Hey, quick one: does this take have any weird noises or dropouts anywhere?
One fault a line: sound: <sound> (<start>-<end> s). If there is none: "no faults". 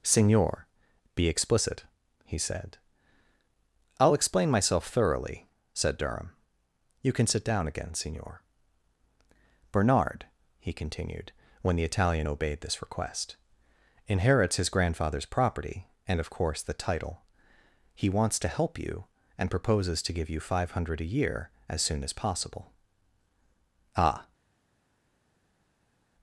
no faults